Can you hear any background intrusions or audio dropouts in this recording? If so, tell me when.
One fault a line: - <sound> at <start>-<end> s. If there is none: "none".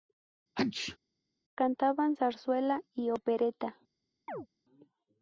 - sneeze at 0.6-1.0 s
- chirp at 4.3-4.5 s